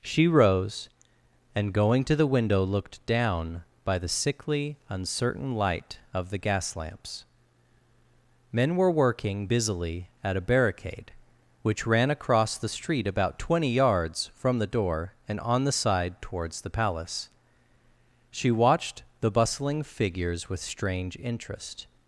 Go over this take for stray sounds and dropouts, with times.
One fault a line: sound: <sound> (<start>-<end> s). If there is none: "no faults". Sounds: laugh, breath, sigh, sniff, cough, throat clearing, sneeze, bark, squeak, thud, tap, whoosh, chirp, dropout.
no faults